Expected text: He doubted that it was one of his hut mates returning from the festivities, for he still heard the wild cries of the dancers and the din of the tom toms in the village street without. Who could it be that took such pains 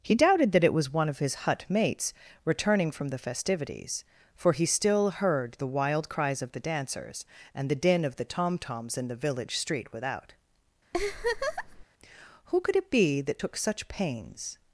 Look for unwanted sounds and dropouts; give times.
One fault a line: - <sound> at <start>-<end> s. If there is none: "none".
- laugh at 10.9-11.8 s